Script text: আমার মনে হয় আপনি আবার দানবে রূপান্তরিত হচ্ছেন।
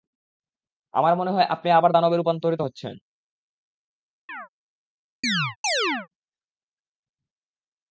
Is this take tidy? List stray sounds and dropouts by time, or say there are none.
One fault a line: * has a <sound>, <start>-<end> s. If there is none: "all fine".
* has a chirp, 4.3-4.5 s
* has a chirp, 5.2-6.1 s